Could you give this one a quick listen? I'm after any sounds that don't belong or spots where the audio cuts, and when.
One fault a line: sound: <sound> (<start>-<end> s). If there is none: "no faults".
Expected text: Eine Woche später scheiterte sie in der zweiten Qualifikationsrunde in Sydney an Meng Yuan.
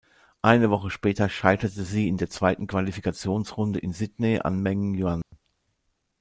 sound: dropout (5.2-5.3 s)